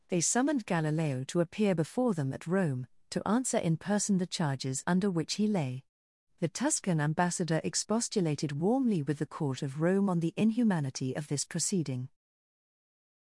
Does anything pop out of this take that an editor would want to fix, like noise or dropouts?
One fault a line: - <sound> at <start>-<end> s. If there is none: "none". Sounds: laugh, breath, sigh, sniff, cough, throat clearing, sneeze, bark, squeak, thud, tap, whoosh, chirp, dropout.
none